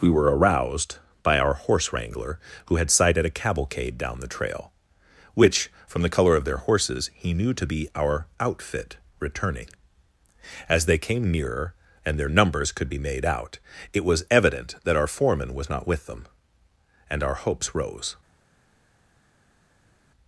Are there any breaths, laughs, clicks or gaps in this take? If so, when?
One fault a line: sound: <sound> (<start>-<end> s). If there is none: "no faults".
no faults